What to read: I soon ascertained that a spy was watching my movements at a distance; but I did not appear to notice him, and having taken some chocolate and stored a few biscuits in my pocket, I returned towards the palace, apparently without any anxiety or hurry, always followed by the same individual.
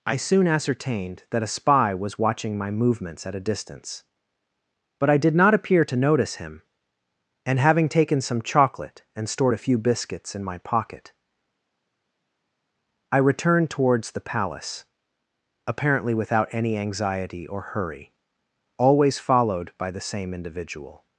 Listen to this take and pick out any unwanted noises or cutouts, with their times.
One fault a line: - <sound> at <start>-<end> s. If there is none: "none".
none